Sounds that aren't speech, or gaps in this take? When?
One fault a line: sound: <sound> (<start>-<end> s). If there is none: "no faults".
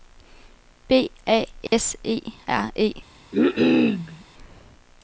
sound: dropout (1.7-1.7 s)
sound: cough (3.3-4.2 s)